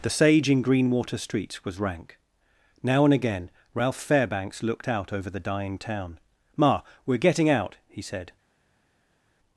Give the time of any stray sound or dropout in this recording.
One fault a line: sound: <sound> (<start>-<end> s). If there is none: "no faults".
no faults